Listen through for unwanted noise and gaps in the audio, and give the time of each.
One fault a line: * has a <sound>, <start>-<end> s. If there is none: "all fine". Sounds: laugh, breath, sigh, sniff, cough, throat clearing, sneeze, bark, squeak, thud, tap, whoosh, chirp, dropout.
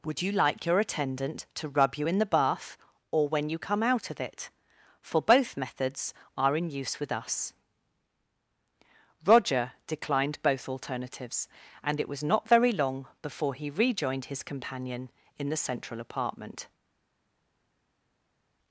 all fine